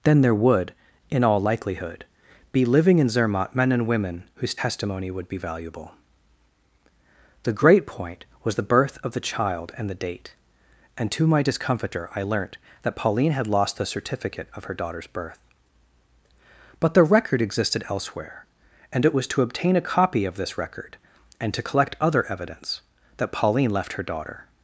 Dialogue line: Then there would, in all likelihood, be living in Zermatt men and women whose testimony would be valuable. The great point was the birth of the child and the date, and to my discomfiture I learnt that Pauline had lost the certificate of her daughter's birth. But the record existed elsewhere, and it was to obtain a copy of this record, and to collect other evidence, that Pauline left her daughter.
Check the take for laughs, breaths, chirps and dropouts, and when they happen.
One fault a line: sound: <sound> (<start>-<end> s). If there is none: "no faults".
no faults